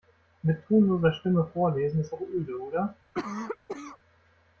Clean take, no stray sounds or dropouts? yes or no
no